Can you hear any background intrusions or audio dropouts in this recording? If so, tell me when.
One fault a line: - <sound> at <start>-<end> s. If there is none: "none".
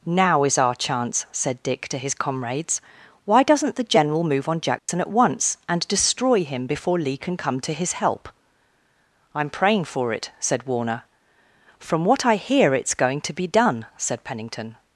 - dropout at 4.8-4.9 s